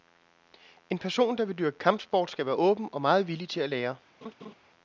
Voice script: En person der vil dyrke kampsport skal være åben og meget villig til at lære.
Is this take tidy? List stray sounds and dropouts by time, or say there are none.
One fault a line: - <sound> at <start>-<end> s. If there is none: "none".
- laugh at 4.2-4.5 s